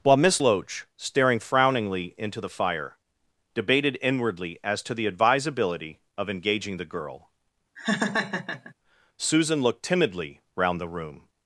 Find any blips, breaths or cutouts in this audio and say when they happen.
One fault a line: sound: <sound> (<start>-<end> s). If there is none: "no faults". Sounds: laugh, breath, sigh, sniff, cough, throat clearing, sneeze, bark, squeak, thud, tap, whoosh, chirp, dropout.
sound: laugh (7.8-8.7 s)